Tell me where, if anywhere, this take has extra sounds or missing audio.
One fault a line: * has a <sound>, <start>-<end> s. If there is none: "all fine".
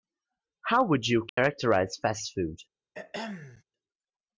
* has a dropout, 1.3-1.4 s
* has a throat clearing, 2.9-3.6 s